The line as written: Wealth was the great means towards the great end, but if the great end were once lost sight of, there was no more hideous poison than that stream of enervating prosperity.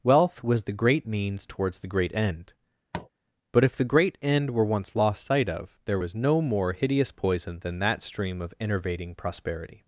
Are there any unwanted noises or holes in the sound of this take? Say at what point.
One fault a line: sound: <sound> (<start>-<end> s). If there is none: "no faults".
sound: tap (2.9-3.1 s)